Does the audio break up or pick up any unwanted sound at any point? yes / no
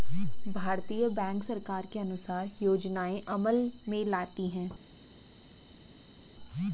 no